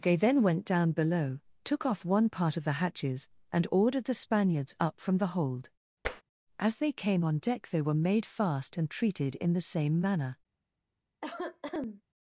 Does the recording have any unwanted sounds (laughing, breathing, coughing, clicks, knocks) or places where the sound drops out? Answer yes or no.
yes